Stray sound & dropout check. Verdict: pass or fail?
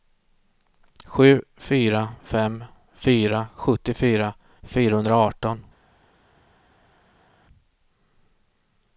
pass